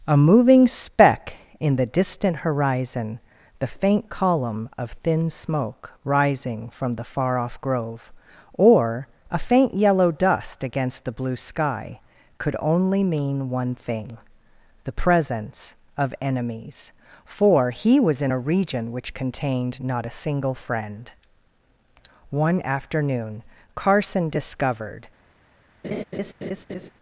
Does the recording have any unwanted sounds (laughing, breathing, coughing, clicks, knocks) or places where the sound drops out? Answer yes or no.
yes